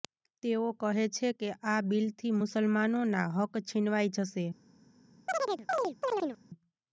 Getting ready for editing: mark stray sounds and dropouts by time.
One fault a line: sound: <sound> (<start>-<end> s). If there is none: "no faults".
sound: chirp (5.3-6.4 s)